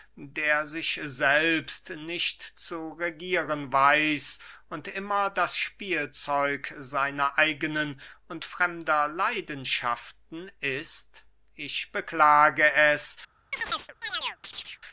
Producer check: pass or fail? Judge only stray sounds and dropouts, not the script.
fail